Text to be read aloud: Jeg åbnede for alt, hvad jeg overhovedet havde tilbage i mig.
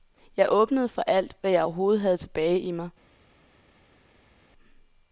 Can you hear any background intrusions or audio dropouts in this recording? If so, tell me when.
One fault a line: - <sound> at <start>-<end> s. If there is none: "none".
none